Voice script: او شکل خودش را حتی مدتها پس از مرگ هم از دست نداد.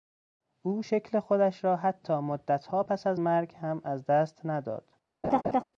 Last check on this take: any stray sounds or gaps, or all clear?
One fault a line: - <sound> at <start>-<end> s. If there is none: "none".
- laugh at 5.2-5.6 s